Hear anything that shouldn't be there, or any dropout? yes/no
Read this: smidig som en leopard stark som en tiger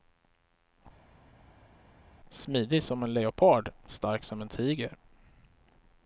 no